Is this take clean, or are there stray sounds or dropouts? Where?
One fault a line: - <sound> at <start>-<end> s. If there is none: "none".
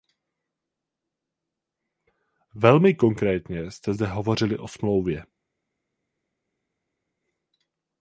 none